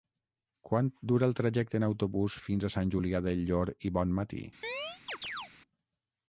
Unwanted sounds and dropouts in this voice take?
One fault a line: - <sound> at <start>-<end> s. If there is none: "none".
- chirp at 4.6-5.5 s